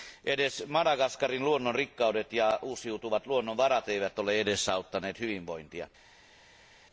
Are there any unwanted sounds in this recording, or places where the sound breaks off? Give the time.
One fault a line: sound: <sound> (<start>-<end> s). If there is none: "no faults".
no faults